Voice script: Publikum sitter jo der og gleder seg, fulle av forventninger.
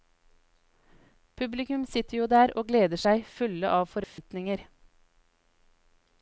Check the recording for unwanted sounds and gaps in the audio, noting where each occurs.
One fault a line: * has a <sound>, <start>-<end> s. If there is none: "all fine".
* has a dropout, 4.0-4.2 s